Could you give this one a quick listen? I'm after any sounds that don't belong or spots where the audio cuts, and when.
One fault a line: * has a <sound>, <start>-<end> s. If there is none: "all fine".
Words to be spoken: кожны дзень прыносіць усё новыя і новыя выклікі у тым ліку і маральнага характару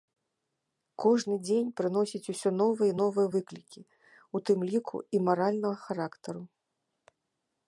all fine